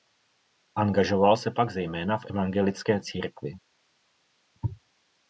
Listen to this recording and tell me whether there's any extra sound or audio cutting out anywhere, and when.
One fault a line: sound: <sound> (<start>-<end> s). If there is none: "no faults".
no faults